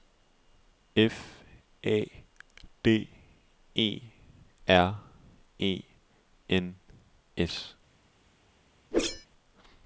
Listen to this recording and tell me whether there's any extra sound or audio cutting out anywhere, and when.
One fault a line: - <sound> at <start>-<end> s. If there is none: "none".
- whoosh at 8.9-9.3 s